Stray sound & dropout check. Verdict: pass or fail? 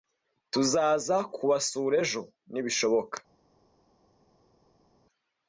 pass